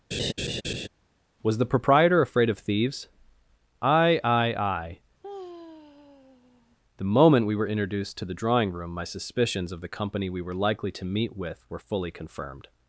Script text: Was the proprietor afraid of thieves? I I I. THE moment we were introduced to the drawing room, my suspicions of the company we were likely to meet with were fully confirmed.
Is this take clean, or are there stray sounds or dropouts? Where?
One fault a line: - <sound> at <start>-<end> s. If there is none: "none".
- laugh at 0.1-0.9 s
- sigh at 5.2-6.8 s